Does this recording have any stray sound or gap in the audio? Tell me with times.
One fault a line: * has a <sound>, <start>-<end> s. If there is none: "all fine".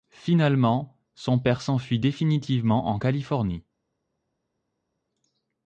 all fine